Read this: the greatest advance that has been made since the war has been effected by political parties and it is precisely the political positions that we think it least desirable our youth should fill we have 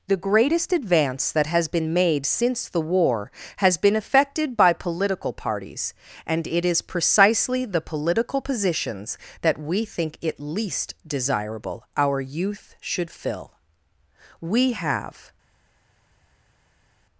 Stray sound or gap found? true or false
false